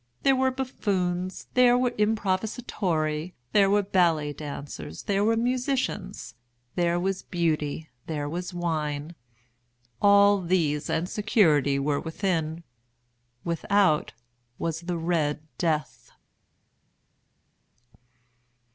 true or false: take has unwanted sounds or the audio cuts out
false